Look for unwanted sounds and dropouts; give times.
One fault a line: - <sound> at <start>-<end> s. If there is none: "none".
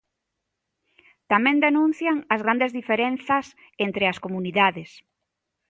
none